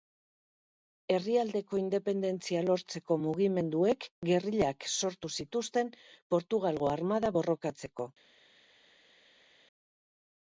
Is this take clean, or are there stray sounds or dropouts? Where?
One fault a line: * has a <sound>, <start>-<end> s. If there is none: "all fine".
all fine